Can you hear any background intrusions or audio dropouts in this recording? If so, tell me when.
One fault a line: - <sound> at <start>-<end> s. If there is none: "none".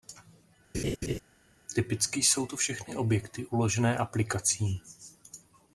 - laugh at 0.7-1.2 s